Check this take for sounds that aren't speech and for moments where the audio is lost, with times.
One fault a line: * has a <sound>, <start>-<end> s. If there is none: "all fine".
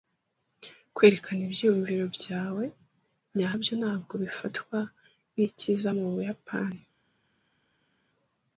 all fine